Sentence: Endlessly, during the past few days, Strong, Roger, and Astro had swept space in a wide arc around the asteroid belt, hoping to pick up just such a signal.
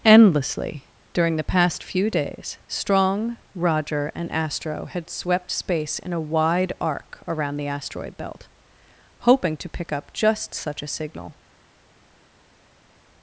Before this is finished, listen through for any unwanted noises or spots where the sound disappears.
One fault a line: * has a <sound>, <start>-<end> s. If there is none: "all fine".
all fine